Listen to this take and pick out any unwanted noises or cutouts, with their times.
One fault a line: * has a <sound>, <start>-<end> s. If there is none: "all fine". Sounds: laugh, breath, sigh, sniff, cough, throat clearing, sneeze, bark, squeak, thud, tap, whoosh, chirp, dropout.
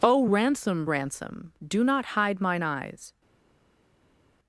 all fine